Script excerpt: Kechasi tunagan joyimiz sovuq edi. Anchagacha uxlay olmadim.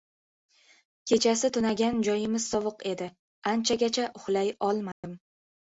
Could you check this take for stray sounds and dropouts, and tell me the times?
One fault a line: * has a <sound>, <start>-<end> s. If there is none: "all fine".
* has a dropout, 4.9-5.0 s